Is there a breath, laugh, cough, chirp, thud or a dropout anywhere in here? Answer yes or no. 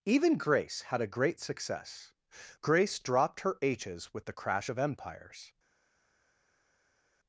no